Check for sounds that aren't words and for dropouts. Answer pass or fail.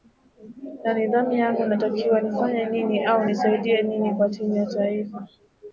pass